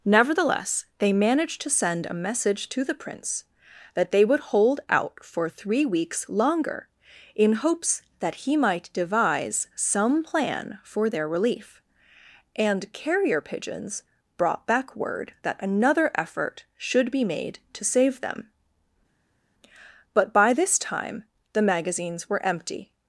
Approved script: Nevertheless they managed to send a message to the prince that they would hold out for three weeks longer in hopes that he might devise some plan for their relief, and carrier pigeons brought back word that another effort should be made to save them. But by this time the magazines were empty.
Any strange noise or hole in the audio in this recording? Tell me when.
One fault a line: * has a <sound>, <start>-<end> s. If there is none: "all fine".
all fine